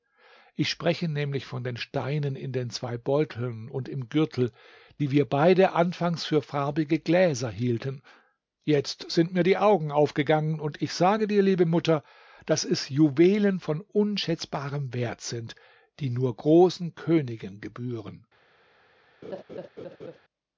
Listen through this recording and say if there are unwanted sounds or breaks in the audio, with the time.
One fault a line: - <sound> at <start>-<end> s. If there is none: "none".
- laugh at 19.2-20.2 s